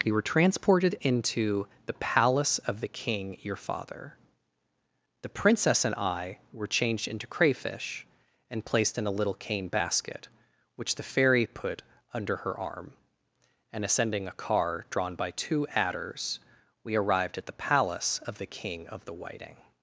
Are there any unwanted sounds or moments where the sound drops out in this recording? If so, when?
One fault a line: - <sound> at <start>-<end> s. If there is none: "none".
none